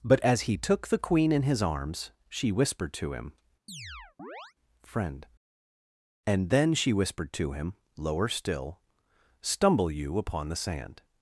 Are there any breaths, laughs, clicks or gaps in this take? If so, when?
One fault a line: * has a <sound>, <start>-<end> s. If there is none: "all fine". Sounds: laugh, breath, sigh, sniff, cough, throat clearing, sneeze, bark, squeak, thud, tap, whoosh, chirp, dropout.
* has a chirp, 3.7-4.5 s